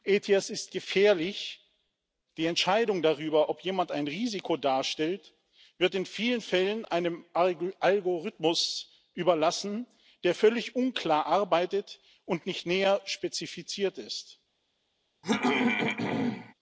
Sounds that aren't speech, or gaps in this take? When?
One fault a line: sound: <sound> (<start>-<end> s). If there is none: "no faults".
sound: throat clearing (15.2-16.5 s)